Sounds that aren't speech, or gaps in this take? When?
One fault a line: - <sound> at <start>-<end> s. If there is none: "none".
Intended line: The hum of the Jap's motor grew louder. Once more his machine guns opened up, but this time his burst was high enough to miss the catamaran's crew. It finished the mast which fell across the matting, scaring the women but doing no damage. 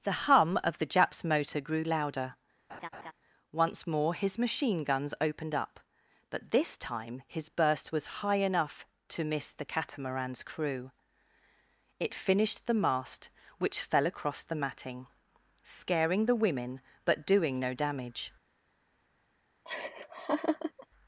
- laugh at 2.7-3.1 s
- laugh at 19.7-20.9 s